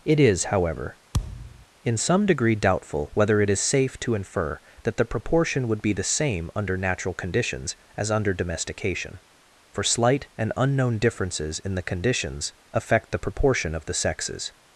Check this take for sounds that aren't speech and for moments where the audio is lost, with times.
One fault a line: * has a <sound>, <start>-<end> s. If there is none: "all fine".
* has a thud, 1.1-1.7 s